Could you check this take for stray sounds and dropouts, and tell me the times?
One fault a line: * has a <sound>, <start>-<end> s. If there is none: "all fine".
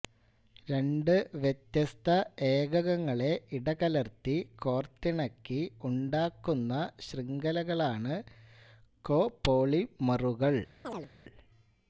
* has a chirp, 10.8-11.1 s